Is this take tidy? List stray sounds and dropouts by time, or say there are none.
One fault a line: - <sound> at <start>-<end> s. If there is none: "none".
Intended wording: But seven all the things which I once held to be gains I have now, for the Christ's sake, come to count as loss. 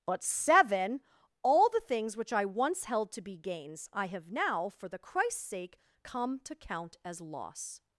none